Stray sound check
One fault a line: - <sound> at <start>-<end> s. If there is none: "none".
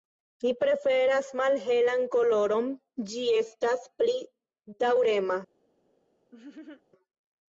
- laugh at 6.3-6.8 s